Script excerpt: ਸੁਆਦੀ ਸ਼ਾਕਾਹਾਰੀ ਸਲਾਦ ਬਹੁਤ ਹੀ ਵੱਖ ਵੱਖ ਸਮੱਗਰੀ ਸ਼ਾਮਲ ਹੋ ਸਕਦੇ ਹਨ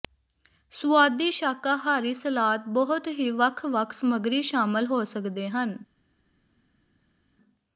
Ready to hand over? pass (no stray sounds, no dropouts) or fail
pass